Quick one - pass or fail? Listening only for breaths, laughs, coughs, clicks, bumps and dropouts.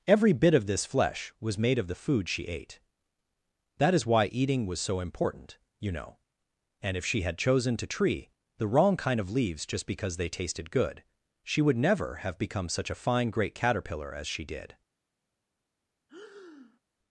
fail